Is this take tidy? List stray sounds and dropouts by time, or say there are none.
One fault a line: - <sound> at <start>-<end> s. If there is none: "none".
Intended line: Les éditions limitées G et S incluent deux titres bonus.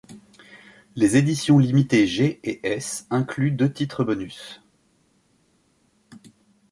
none